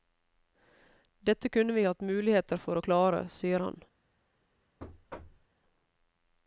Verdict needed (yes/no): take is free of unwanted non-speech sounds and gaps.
no